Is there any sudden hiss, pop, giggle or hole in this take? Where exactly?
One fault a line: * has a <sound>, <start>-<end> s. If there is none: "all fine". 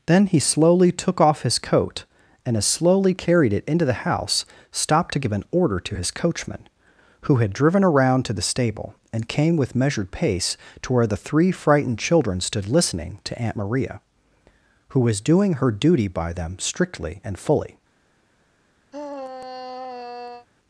* has a sigh, 18.9-20.5 s